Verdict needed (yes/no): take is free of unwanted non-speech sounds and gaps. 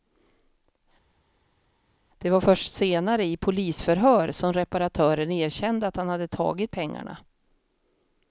yes